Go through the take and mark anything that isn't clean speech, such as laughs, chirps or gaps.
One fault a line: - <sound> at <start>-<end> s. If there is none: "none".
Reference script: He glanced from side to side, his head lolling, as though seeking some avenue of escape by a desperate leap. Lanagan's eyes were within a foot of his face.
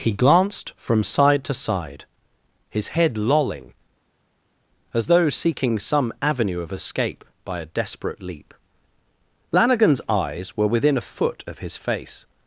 none